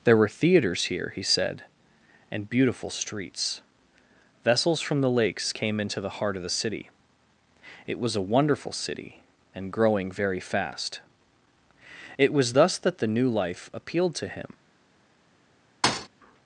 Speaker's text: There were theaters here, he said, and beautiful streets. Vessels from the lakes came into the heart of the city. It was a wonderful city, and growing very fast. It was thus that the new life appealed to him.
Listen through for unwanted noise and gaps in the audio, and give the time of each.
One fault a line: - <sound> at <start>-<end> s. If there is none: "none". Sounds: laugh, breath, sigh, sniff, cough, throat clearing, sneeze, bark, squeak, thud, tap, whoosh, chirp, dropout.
- thud at 15.8-16.1 s